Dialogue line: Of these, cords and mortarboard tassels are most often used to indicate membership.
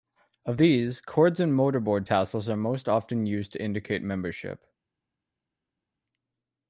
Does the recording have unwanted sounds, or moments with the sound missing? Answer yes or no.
no